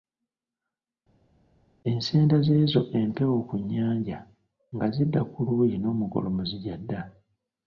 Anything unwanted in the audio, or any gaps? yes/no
no